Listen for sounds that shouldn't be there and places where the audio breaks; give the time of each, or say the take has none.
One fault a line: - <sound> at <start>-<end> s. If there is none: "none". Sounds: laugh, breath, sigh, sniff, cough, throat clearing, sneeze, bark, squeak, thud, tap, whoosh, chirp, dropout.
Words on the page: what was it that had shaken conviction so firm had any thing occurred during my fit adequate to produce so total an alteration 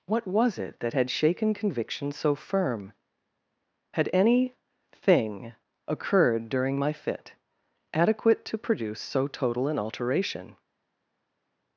none